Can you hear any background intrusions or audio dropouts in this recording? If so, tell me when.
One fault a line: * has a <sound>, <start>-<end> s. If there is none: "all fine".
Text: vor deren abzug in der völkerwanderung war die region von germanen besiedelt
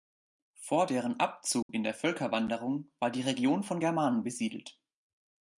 * has a dropout, 1.6-1.7 s